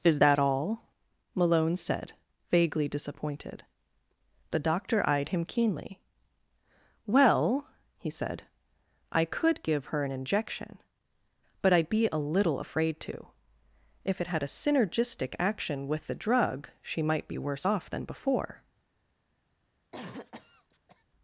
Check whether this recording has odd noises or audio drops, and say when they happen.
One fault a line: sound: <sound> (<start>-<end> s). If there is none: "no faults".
sound: cough (19.9-21.0 s)